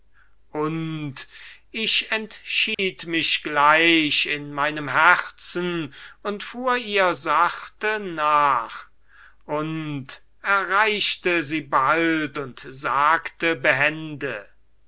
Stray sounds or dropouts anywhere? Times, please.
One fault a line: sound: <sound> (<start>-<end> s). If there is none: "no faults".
sound: dropout (2.7-2.8 s)